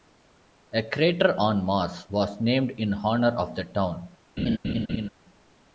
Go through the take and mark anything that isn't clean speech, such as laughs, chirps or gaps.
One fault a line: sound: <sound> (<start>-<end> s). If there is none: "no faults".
sound: laugh (4.4-5.1 s)